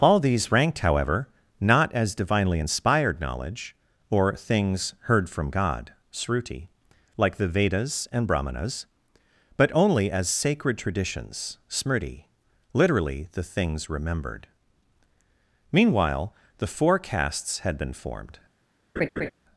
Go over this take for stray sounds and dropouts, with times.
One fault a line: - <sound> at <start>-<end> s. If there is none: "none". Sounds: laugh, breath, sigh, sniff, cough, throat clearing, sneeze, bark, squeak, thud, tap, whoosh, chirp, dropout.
- laugh at 19.0-19.3 s